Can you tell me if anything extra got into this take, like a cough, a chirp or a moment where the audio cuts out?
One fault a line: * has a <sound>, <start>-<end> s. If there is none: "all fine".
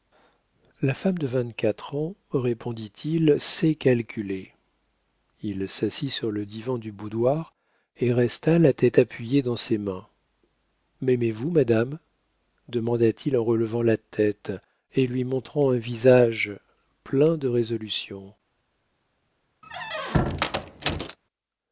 * has a squeak, 19.6-21.2 s